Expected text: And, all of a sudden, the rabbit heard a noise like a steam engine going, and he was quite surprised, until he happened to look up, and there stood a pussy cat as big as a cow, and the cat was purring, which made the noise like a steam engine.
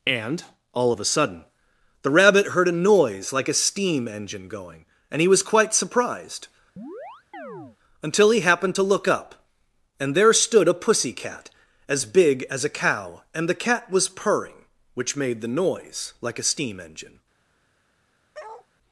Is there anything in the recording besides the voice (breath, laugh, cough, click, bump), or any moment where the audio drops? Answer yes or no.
yes